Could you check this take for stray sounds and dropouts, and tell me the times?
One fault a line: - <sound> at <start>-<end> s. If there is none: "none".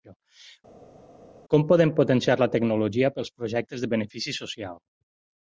none